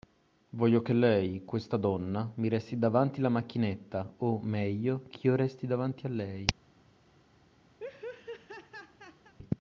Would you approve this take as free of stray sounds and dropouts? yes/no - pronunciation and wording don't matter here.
no